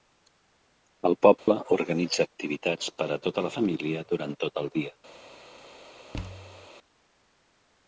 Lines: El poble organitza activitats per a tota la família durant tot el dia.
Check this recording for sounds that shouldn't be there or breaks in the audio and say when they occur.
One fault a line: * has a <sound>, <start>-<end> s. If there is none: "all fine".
* has a dropout, 1.4-1.5 s
* has a thud, 6.1-6.7 s